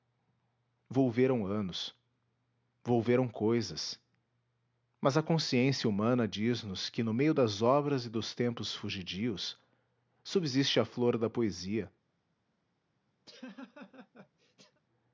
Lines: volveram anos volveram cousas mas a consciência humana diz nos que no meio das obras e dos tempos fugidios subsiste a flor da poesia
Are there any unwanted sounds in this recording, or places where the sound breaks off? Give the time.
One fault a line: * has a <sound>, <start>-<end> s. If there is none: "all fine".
* has a laugh, 13.3-14.8 s